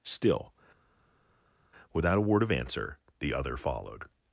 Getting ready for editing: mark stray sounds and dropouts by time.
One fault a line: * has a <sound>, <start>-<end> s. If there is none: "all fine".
all fine